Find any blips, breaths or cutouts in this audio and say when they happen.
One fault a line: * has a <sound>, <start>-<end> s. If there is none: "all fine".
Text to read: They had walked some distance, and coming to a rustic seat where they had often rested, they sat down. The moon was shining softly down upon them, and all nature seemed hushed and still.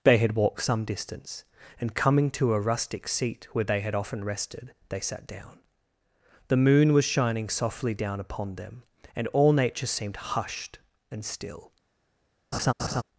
* has a laugh, 12.5-13.0 s